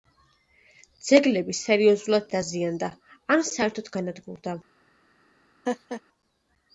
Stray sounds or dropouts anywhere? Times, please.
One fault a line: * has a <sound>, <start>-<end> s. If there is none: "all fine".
* has a laugh, 5.7-6.0 s